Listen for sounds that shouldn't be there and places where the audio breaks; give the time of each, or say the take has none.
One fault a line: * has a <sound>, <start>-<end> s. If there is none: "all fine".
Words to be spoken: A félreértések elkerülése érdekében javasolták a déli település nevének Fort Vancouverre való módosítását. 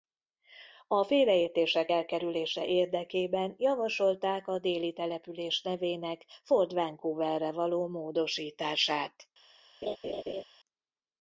* has a laugh, 9.8-10.4 s